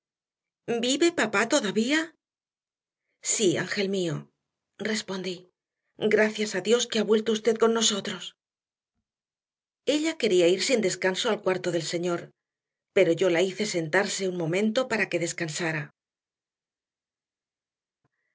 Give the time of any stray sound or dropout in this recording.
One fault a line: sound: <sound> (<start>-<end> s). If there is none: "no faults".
no faults